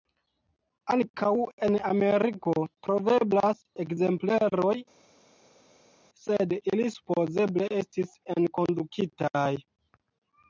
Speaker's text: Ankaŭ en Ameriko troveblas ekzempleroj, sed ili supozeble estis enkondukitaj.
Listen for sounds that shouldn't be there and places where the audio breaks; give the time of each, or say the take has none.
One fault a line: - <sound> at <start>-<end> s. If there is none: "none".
none